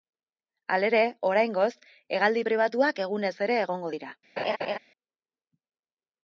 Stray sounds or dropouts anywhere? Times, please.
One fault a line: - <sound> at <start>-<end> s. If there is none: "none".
- laugh at 4.4-4.8 s